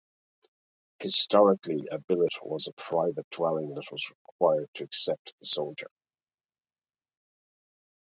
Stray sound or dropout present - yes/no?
no